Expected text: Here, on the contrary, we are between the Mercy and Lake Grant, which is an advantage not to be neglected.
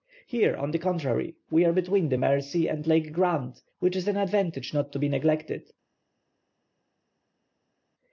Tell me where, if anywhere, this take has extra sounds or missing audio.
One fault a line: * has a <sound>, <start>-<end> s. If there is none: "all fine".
all fine